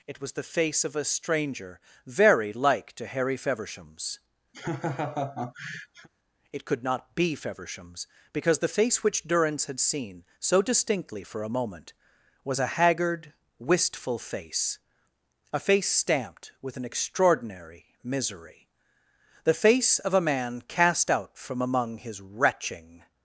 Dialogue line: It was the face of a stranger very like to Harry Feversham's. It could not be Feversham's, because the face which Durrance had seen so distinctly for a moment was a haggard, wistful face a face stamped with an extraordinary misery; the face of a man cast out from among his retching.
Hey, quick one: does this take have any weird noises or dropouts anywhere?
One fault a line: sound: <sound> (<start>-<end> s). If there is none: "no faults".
sound: laugh (4.5-6.1 s)